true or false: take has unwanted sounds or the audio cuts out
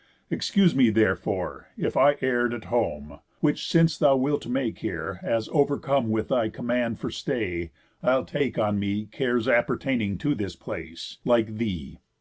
false